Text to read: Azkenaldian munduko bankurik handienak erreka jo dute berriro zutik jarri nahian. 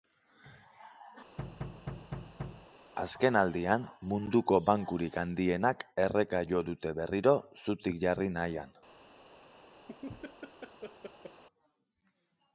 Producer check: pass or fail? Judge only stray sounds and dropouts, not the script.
fail